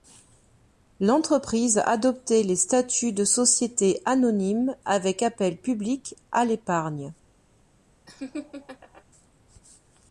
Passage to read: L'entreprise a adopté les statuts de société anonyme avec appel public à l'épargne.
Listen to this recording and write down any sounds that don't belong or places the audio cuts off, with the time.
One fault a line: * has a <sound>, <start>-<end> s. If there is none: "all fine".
* has a laugh, 8.1-9.0 s